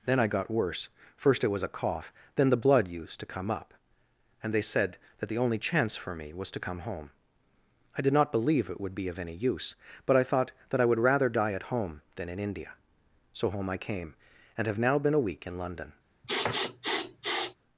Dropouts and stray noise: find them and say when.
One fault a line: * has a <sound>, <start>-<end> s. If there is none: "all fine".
* has a sniff, 16.2-17.6 s